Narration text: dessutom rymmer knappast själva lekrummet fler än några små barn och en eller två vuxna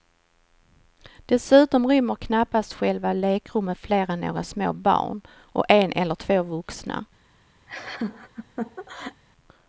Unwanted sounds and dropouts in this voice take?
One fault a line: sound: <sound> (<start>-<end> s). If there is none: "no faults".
sound: laugh (7.7-9.2 s)